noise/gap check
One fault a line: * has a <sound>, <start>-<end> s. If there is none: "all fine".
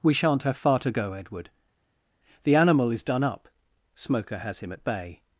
all fine